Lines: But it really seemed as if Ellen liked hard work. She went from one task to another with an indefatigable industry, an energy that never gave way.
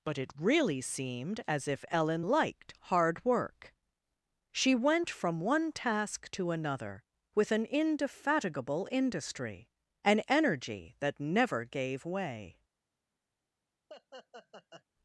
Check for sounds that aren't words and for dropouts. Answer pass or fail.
fail